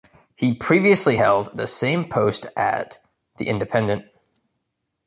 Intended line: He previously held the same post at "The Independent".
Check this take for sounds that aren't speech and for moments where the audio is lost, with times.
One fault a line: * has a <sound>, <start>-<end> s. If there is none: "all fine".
all fine